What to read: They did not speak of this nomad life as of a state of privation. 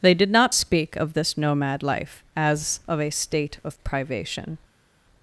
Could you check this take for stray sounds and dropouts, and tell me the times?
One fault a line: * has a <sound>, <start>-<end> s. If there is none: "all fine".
all fine